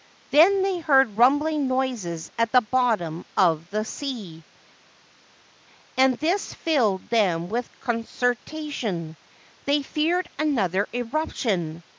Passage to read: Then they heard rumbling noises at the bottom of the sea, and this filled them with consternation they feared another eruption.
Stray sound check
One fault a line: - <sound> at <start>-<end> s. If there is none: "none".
none